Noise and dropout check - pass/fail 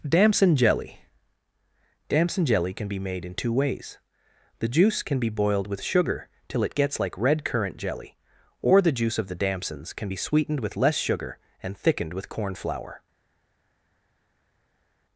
pass